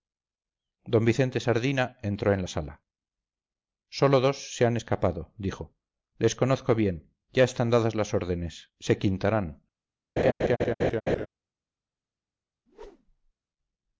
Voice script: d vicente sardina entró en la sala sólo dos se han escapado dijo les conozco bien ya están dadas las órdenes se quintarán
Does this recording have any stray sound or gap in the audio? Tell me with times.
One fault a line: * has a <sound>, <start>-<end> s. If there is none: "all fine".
* has a laugh, 10.2-11.3 s
* has a whoosh, 12.7-13.3 s